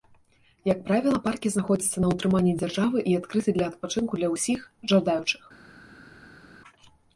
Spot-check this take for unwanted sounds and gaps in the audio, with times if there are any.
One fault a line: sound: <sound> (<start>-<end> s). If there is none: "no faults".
no faults